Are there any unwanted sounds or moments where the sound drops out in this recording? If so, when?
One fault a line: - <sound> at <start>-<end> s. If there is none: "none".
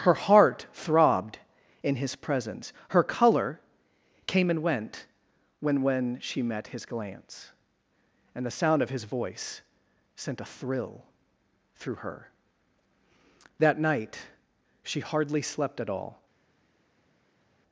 none